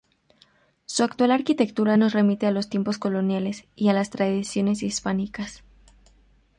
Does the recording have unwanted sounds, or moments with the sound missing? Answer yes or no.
no